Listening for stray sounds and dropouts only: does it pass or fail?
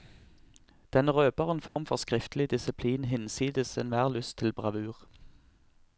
fail